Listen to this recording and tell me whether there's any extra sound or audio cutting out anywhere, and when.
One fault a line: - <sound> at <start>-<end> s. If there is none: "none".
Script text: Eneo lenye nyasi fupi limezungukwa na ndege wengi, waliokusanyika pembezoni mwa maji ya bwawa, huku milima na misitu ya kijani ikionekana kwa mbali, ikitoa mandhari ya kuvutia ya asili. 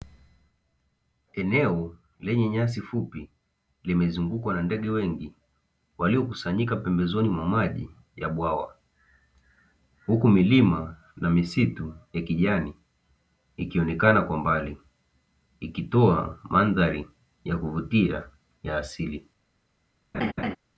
- laugh at 20.1-20.6 s